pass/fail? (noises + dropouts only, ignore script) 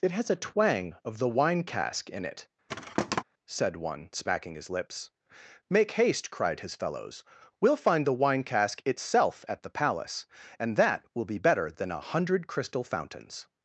fail